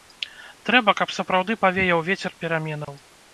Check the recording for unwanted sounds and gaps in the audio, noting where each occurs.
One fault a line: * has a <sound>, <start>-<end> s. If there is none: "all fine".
* has a dropout, 2.8-2.9 s